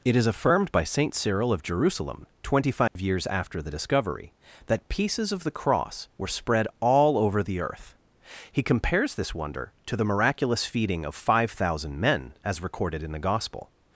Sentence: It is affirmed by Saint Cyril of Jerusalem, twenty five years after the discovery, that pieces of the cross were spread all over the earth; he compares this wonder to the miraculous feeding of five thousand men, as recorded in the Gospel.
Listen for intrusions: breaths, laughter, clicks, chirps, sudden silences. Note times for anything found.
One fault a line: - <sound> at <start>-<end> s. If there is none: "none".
- dropout at 2.9-3.0 s